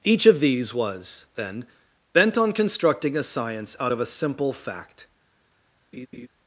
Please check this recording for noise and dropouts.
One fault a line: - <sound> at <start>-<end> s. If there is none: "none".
- laugh at 5.9-6.3 s